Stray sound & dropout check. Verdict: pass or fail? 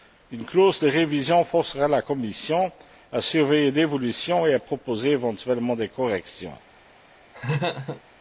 fail